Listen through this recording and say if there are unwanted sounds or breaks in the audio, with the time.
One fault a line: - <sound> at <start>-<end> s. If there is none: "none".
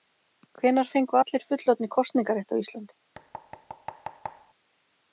- thud at 3.1-4.5 s